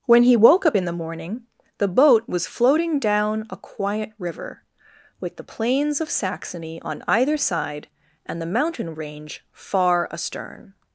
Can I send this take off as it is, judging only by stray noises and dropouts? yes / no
yes